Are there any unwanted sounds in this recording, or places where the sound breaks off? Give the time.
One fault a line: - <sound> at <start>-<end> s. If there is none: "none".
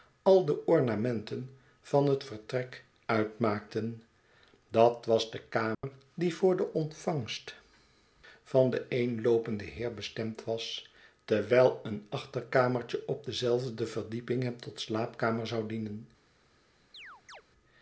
- dropout at 5.7-5.8 s
- chirp at 16.9-17.4 s